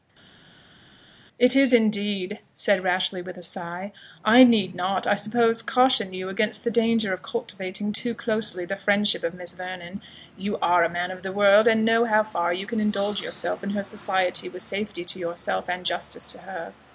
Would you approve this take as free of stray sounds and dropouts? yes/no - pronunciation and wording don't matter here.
yes